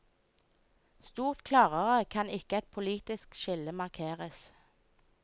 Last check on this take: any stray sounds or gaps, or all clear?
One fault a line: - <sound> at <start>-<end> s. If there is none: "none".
none